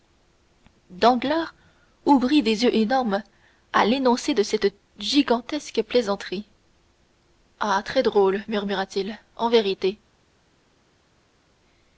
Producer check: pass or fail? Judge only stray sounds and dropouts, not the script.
pass